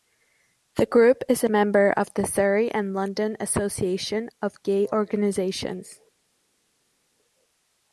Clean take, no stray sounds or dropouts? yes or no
yes